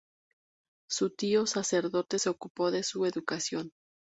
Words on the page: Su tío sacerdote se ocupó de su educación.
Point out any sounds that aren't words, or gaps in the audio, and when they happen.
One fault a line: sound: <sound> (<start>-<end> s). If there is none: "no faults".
no faults